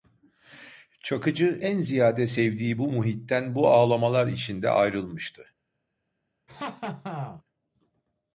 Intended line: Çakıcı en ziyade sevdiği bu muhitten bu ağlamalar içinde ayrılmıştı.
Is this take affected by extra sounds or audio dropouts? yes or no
yes